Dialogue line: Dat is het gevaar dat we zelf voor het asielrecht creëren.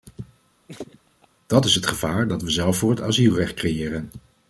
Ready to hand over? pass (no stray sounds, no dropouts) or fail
fail